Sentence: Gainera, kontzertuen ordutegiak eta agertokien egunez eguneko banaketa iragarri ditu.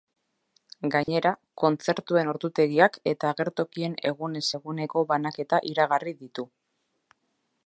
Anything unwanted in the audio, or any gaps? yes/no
yes